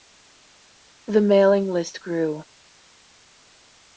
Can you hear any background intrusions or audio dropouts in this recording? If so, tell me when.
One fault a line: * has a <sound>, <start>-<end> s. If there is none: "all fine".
all fine